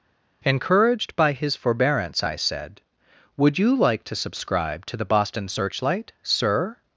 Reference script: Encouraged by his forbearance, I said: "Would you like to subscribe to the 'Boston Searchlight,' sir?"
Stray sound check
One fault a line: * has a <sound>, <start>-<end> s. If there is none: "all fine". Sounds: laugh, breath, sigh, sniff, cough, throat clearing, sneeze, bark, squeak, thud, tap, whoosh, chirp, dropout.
all fine